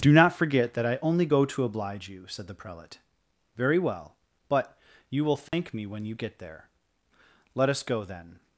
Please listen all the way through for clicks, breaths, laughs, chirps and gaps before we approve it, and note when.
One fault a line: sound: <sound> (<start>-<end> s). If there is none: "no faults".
sound: dropout (5.5-5.5 s)